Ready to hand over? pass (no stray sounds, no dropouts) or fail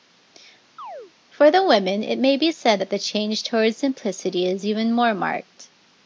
fail